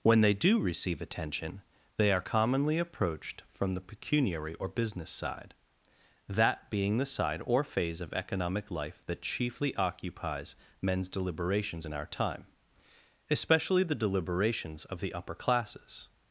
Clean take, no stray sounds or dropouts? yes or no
yes